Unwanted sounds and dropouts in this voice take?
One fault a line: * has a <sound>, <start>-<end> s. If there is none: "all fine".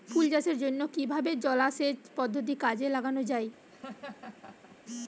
* has a laugh, 3.7-4.8 s